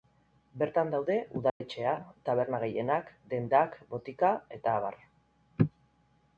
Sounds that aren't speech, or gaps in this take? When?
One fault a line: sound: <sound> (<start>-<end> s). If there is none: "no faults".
sound: dropout (1.5-1.6 s)